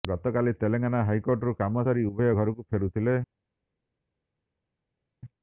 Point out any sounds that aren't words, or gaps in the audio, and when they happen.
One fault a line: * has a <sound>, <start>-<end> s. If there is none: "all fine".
all fine